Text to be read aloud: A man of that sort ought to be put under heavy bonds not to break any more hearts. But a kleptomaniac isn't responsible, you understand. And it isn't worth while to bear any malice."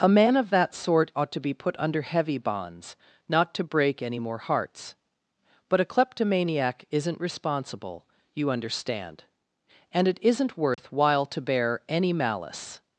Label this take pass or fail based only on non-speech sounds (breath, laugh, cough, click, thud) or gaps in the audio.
fail